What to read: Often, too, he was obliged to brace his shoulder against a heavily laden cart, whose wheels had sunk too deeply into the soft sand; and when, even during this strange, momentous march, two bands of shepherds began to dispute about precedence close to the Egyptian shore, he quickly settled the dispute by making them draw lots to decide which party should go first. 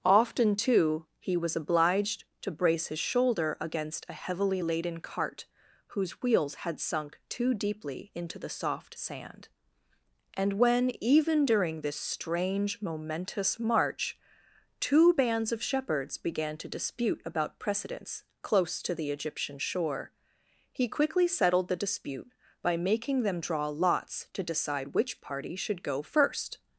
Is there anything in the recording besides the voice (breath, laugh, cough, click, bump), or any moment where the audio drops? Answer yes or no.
no